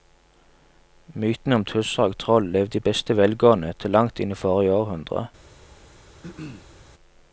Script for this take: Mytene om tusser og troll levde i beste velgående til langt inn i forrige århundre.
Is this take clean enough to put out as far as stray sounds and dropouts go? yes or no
no